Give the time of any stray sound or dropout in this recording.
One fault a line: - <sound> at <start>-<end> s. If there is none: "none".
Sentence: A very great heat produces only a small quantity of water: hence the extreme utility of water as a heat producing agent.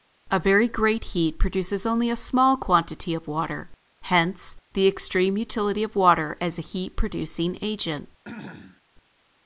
- throat clearing at 8.2-8.8 s